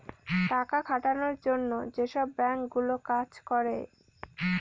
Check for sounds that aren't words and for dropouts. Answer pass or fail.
pass